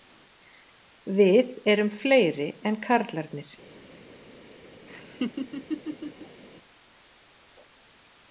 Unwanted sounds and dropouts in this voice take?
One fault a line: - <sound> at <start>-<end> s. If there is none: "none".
- laugh at 4.9-6.4 s